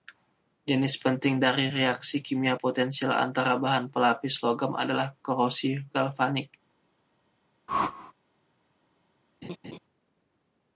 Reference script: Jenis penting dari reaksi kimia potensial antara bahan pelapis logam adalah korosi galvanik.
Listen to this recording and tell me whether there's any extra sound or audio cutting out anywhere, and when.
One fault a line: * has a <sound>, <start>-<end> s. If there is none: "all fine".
* has a whoosh, 7.7-8.1 s
* has a laugh, 9.4-9.8 s